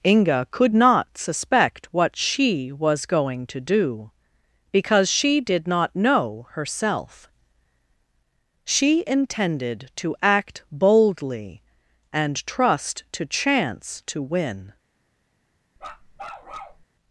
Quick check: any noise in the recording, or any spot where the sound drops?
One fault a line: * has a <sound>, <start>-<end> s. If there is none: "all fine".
* has a bark, 15.8-16.9 s